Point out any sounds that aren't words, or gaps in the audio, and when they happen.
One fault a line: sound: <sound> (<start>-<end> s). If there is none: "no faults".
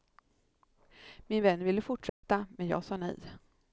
sound: dropout (2.1-2.2 s)